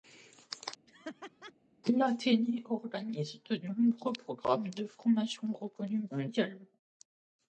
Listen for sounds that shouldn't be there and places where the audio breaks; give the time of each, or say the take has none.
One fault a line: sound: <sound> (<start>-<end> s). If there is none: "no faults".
sound: laugh (0.9-1.5 s)